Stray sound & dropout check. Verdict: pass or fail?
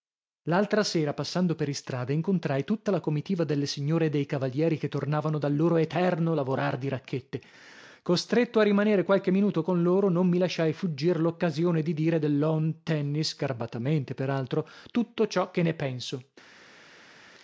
pass